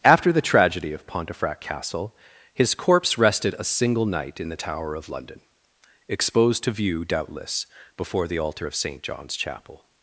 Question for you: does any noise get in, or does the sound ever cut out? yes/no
no